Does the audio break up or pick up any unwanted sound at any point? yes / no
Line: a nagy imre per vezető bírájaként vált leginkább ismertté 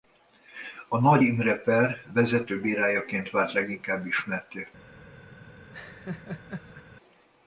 yes